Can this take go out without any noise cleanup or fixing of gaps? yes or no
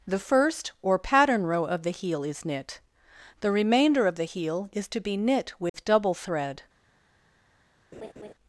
no